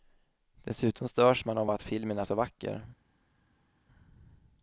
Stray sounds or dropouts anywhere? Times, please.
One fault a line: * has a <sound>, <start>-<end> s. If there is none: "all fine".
all fine